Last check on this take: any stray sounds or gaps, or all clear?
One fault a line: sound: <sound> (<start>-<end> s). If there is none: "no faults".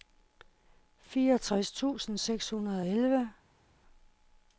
no faults